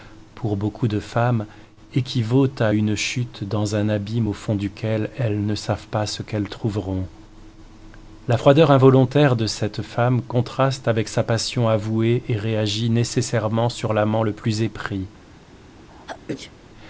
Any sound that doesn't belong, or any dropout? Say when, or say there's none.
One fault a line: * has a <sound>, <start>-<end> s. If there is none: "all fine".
* has a sneeze, 15.9-16.5 s